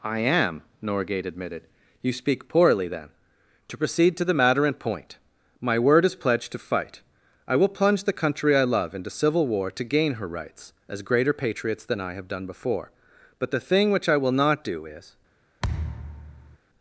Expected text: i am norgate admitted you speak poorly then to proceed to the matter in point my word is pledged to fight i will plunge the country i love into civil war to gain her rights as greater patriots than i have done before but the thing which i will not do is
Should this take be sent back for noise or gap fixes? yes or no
yes